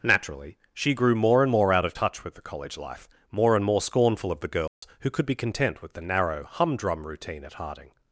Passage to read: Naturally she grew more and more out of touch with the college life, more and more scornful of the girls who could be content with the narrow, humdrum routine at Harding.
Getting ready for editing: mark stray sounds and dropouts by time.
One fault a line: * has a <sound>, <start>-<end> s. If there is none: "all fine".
* has a dropout, 4.7-4.8 s